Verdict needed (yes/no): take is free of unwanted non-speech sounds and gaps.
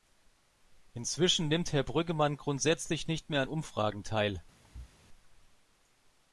no